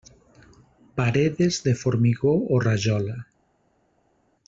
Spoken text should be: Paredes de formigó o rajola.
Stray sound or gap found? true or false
false